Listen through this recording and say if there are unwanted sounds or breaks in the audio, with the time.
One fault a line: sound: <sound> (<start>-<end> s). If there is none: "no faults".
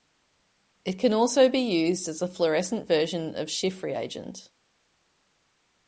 no faults